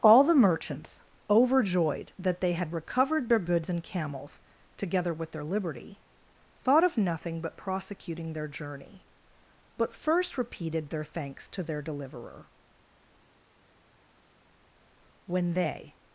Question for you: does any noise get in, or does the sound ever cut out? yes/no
no